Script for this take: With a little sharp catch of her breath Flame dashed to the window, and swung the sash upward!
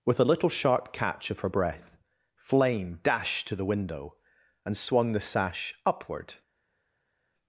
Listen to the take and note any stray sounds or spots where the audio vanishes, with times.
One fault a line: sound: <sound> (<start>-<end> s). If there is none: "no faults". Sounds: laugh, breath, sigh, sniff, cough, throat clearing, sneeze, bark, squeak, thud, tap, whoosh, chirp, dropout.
no faults